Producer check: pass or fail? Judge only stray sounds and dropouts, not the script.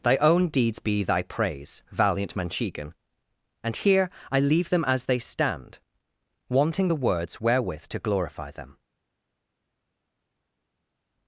pass